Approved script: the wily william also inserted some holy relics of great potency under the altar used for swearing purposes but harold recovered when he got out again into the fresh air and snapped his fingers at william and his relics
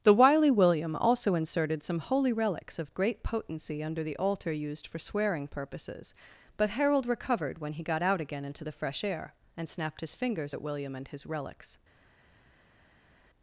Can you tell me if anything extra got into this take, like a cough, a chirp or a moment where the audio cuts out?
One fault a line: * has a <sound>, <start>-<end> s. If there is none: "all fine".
all fine